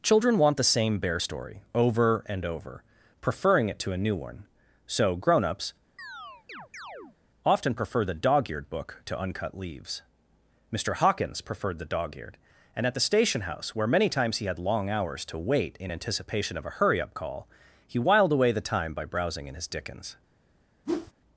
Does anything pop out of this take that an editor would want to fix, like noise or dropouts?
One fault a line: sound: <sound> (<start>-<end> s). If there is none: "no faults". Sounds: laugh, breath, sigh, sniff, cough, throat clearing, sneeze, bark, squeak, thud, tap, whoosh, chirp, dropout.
sound: chirp (6.0-7.2 s)
sound: whoosh (20.9-21.1 s)